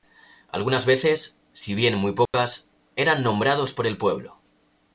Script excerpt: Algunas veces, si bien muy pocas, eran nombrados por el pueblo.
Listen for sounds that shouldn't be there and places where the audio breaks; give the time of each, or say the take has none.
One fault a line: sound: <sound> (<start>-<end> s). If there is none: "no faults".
sound: dropout (2.3-2.3 s)